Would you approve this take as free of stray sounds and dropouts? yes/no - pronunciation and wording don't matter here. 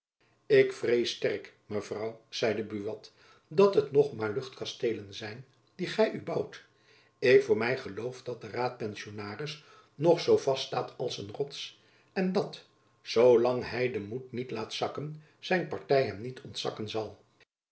yes